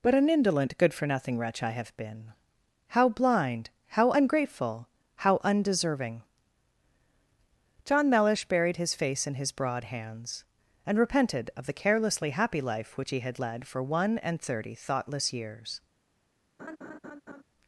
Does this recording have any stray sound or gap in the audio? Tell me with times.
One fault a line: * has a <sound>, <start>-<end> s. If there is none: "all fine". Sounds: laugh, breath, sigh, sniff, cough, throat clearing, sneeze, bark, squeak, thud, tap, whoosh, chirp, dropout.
* has a laugh, 16.6-17.4 s